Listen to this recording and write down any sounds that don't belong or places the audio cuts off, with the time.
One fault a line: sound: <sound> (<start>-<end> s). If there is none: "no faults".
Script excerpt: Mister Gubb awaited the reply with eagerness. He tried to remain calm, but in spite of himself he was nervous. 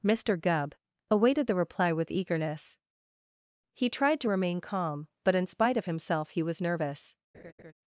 sound: laugh (7.3-7.7 s)